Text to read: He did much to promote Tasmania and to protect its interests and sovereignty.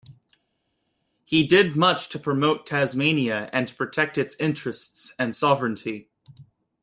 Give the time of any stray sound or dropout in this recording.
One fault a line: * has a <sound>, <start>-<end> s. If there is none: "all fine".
all fine